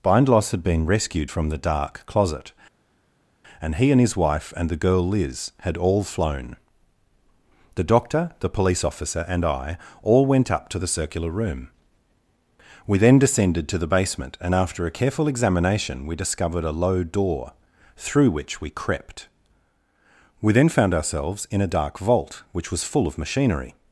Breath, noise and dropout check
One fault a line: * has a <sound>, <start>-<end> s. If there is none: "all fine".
all fine